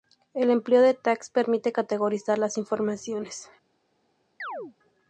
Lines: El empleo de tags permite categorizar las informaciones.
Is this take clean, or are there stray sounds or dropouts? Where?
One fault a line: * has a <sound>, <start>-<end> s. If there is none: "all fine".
* has a chirp, 4.4-4.7 s